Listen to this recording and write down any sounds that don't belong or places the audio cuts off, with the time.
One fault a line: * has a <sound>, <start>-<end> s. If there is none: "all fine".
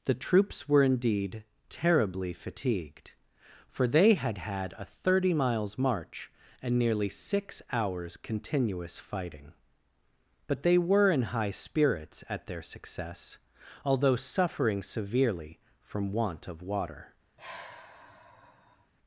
* has a sigh, 17.4-18.9 s